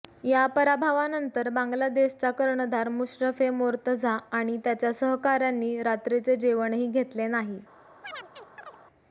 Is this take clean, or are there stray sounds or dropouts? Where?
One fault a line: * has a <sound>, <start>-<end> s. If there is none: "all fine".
* has a chirp, 8.0-8.8 s